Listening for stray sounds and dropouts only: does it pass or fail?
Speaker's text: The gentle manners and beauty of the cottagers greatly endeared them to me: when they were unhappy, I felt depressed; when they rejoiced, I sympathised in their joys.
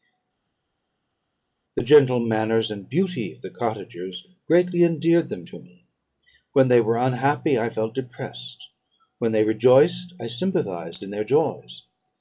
pass